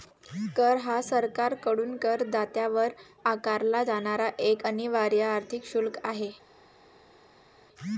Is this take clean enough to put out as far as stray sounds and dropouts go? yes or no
yes